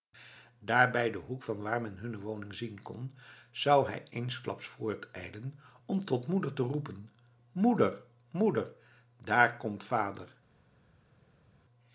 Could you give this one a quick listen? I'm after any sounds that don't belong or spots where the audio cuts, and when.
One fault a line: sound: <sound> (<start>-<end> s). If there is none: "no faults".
no faults